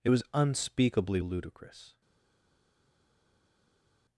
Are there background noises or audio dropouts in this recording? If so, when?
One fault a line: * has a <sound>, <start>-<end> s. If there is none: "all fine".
all fine